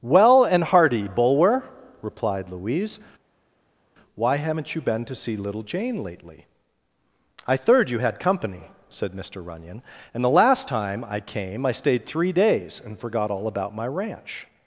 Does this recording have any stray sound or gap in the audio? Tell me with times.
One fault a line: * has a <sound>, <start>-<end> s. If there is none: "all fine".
all fine